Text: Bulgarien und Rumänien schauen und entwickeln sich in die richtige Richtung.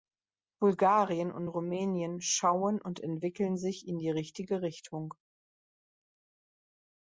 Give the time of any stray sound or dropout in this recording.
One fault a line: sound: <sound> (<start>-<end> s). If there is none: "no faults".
no faults